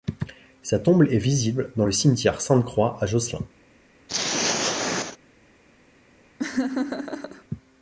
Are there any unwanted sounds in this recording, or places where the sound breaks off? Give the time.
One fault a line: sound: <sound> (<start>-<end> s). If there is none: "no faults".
sound: throat clearing (4.1-5.2 s)
sound: laugh (6.4-7.4 s)